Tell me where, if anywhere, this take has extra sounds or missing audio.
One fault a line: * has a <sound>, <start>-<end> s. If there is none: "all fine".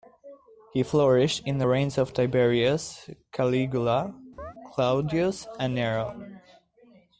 * has a chirp, 4.4-4.5 s